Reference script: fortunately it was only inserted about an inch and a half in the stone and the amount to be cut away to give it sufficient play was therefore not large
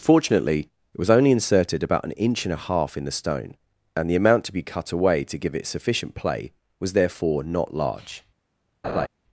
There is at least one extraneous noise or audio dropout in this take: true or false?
true